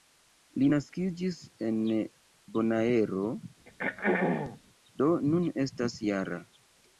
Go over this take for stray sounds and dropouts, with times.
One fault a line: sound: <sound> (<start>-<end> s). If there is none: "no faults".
sound: throat clearing (3.7-4.6 s)